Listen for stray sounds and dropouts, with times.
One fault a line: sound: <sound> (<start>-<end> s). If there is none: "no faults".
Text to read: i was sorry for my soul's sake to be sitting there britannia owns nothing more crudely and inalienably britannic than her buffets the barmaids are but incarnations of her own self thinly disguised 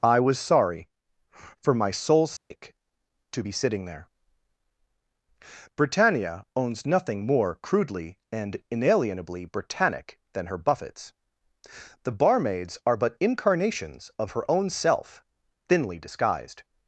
sound: dropout (2.4-2.5 s)